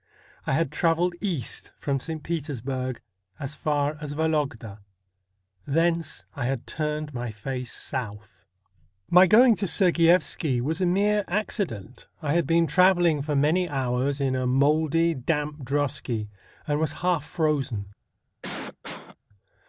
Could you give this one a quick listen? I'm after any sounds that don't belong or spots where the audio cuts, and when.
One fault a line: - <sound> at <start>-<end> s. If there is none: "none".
- cough at 18.4-19.2 s